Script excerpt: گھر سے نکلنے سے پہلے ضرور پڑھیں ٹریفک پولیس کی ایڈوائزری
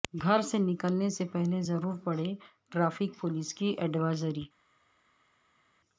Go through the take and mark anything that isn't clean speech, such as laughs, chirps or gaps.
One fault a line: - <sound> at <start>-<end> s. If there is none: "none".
none